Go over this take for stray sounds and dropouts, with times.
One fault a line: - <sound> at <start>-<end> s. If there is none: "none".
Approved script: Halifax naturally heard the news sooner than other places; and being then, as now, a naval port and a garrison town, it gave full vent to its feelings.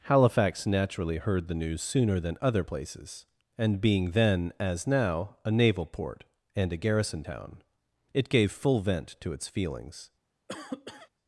- cough at 10.5-11.1 s